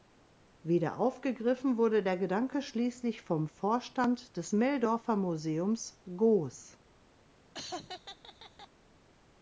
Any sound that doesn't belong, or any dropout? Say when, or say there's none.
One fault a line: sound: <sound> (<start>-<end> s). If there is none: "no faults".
sound: laugh (7.5-8.7 s)